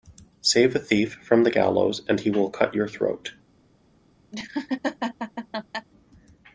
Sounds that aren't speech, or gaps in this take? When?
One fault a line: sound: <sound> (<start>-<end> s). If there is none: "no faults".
sound: laugh (4.3-5.9 s)